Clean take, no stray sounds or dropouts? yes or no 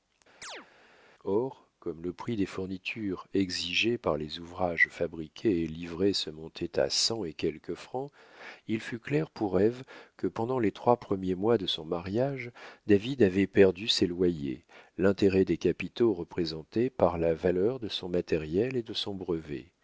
no